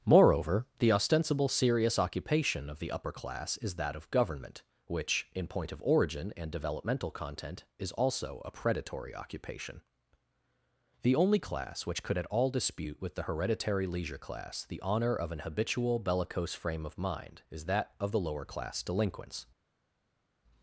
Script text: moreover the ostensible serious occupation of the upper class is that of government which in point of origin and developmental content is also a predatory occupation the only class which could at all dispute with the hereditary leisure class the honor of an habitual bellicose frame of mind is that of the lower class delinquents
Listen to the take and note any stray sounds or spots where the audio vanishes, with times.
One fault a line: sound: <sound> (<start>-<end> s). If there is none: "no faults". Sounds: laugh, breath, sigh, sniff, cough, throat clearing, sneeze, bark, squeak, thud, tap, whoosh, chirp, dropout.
no faults